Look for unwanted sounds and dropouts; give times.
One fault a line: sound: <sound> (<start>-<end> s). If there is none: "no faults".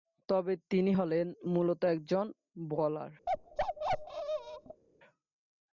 sound: bark (3.3-4.8 s)